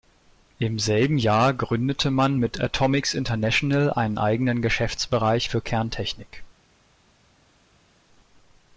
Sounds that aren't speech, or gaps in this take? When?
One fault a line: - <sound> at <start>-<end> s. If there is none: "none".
none